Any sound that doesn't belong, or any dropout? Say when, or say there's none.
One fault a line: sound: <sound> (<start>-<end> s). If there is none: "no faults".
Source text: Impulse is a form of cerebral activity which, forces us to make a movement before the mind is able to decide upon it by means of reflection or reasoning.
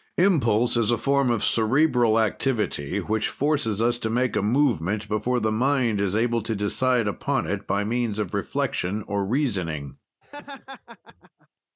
sound: laugh (10.2-11.5 s)